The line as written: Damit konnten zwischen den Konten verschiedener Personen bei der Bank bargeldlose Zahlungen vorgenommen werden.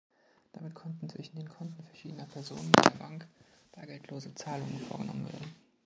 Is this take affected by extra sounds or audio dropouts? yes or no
no